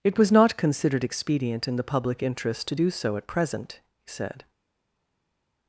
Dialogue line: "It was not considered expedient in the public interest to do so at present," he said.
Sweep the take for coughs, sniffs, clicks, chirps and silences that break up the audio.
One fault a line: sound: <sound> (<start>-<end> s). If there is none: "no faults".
no faults